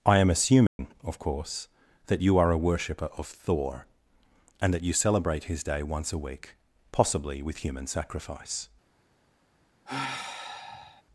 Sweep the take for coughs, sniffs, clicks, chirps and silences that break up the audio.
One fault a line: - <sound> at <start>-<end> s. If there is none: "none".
- dropout at 0.7-0.8 s
- sigh at 9.9-11.0 s